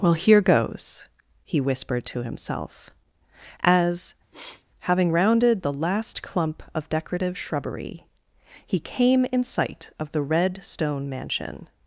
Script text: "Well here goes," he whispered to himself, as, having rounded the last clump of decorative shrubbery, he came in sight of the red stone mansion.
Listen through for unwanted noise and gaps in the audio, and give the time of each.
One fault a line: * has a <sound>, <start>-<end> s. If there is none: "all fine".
* has a sniff, 4.3-4.7 s